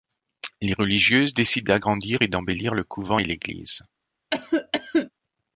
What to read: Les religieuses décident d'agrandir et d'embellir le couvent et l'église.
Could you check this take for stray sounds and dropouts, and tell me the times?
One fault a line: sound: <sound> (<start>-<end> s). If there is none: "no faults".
sound: cough (4.3-5.1 s)